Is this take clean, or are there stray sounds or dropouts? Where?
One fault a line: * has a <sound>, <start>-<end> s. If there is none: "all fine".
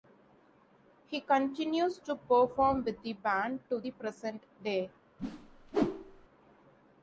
* has a whoosh, 5.2-6.3 s